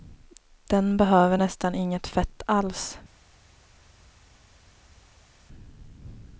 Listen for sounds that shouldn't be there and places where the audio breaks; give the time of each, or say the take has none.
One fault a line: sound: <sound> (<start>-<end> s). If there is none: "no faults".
no faults